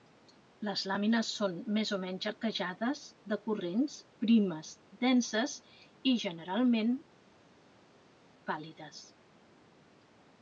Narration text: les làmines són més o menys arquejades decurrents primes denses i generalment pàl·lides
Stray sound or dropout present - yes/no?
no